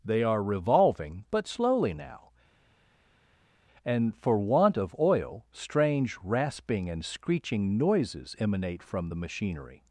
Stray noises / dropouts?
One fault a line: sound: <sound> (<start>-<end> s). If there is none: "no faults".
no faults